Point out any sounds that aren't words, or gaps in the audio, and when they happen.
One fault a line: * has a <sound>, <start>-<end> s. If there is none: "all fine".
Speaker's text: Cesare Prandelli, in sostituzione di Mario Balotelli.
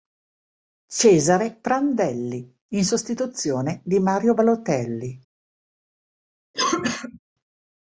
* has a cough, 6.5-7.2 s